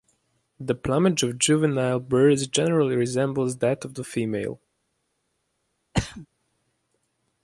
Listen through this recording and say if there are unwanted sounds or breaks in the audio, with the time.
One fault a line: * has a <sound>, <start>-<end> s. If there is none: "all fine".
* has a throat clearing, 5.9-6.3 s